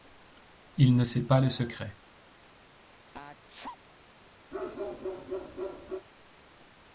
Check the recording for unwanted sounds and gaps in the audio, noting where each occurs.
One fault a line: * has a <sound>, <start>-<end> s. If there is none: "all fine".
* has a sneeze, 3.1-3.8 s
* has a bark, 4.5-6.1 s